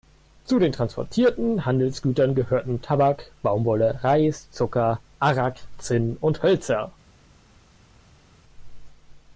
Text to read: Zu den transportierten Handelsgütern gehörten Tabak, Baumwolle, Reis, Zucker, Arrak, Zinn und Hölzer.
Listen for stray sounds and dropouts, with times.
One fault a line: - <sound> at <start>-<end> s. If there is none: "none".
none